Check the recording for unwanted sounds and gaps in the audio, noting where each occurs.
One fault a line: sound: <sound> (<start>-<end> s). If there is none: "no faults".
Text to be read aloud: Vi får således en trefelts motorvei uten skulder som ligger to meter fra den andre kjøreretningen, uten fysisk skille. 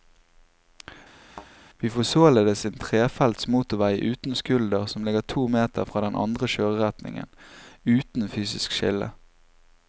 sound: thud (1.3-1.5 s)